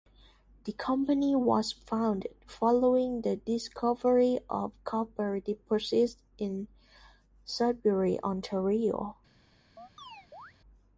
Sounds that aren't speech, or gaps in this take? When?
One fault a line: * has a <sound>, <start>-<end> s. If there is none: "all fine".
* has a chirp, 9.8-10.5 s